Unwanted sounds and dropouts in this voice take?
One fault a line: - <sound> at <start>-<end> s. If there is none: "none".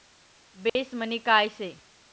- dropout at 0.7-0.8 s